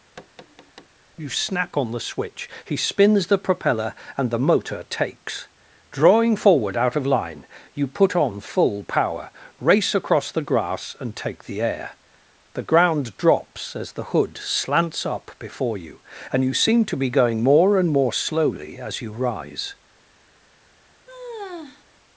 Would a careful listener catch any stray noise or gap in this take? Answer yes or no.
yes